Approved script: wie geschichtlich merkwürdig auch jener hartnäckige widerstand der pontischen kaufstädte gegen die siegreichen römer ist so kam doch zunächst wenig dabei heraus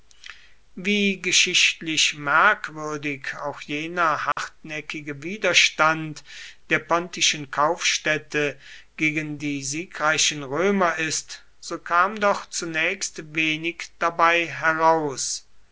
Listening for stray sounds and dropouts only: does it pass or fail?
fail